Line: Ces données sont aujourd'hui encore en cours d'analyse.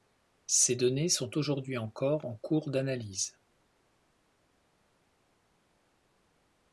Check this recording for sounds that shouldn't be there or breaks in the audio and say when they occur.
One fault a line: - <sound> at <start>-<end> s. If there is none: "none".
none